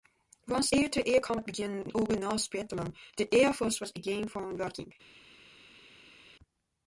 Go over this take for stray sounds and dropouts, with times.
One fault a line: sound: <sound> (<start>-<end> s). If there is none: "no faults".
no faults